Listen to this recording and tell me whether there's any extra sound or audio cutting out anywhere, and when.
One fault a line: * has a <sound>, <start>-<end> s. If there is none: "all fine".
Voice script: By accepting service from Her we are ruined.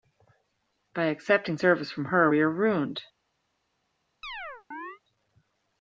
* has a chirp, 4.2-5.0 s